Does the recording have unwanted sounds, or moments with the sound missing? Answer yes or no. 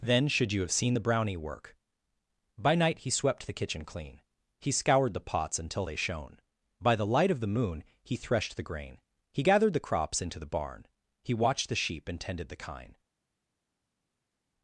no